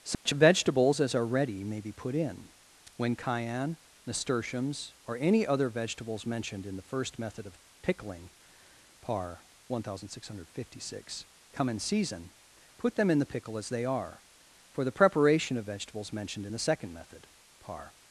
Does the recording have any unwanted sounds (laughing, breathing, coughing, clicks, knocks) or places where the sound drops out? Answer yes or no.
yes